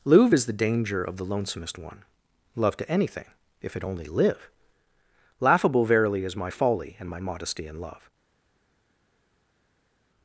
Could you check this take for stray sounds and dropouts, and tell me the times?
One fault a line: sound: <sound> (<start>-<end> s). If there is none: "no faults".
no faults